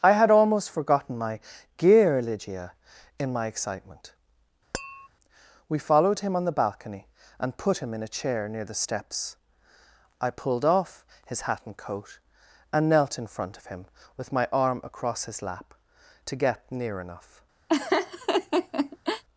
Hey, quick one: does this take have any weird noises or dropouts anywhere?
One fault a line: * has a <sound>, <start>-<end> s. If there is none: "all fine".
* has a tap, 4.7-5.1 s
* has a laugh, 17.7-19.2 s